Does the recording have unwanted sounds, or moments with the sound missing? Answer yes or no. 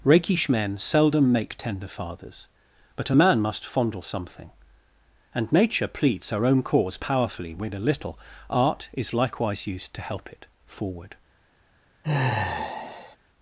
yes